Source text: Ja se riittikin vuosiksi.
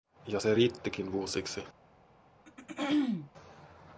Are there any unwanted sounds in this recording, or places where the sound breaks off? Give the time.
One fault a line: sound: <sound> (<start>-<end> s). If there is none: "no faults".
sound: throat clearing (2.5-3.3 s)